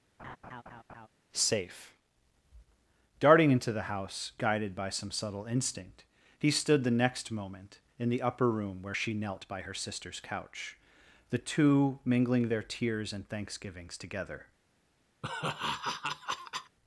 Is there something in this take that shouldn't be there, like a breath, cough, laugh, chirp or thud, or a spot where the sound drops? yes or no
yes